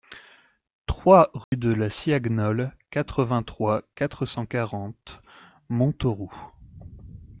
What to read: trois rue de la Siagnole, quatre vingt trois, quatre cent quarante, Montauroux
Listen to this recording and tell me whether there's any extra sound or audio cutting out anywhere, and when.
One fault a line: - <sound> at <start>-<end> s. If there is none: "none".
- dropout at 1.4-1.5 s